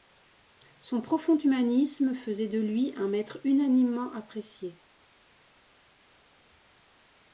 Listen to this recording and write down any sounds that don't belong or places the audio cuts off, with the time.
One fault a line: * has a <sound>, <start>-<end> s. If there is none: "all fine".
all fine